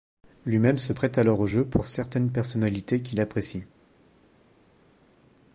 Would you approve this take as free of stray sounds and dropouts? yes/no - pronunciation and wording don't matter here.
yes